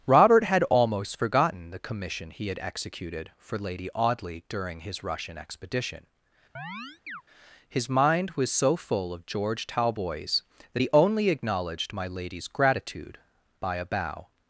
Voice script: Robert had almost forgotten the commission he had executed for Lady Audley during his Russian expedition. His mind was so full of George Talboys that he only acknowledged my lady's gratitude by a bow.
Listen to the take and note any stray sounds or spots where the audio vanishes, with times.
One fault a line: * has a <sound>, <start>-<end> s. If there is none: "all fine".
* has a chirp, 6.6-7.2 s